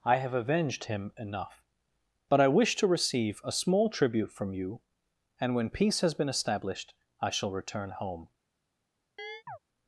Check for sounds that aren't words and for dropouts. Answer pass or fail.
fail